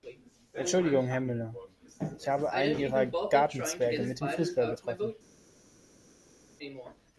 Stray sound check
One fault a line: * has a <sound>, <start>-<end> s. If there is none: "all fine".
all fine